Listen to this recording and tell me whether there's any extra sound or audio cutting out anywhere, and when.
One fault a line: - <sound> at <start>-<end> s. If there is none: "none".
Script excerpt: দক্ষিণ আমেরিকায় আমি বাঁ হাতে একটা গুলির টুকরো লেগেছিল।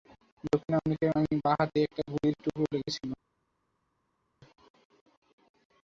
none